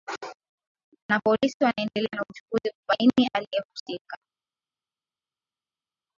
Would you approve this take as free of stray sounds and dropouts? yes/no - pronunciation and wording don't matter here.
yes